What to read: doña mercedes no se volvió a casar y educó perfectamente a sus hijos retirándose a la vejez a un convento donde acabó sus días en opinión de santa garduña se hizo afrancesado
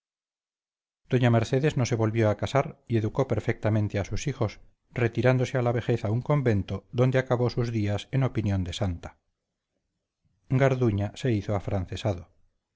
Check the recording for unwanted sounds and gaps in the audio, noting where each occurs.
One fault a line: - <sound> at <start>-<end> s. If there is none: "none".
none